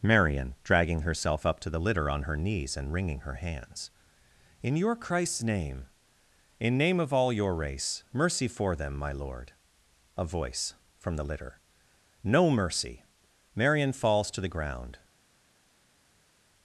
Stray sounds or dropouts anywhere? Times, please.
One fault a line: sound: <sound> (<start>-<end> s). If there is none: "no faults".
no faults